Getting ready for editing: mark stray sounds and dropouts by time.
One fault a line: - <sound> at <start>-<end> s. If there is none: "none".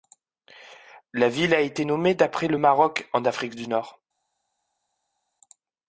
none